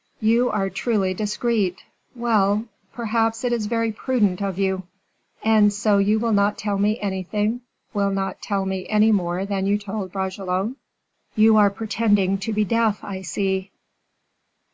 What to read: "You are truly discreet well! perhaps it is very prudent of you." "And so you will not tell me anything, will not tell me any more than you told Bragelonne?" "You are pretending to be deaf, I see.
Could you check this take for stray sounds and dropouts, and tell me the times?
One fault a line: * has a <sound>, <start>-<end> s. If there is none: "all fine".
all fine